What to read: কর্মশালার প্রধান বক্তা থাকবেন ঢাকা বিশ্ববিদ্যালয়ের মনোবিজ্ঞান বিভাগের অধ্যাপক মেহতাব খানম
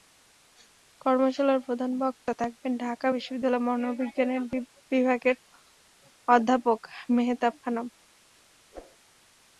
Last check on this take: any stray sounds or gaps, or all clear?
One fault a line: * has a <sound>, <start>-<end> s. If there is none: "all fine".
* has a whoosh, 8.7-9.0 s